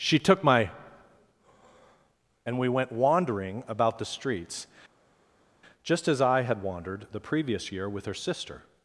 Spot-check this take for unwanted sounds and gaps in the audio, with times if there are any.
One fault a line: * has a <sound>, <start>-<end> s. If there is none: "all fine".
all fine